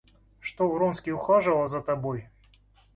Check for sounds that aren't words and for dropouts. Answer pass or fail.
pass